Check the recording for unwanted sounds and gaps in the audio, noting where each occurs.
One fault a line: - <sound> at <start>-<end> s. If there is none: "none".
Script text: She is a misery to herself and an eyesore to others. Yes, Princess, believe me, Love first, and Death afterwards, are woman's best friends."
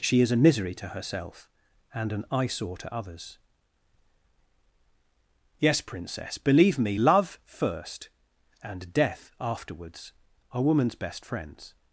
none